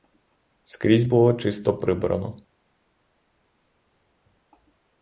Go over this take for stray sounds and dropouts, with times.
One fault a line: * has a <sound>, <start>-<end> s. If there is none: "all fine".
all fine